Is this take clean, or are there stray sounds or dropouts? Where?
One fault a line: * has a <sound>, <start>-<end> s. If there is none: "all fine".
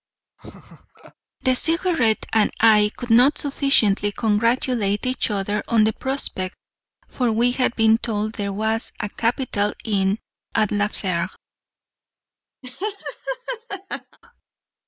* has a laugh, 0.4-1.1 s
* has a laugh, 12.6-14.2 s